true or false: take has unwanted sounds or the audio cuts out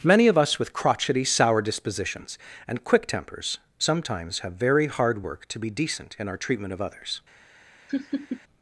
true